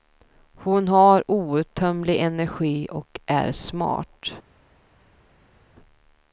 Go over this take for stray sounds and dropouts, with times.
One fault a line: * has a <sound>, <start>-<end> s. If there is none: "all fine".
all fine